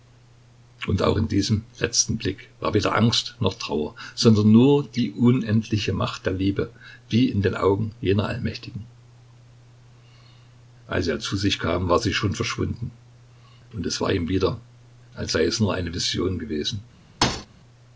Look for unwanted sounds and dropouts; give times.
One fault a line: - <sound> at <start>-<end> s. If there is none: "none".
- thud at 17.2-17.5 s